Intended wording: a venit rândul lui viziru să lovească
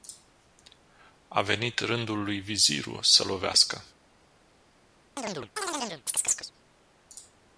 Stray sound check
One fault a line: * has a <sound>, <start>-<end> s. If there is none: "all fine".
* has a chirp, 5.2-6.5 s